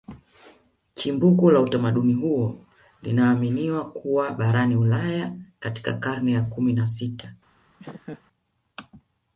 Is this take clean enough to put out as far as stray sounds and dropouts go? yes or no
no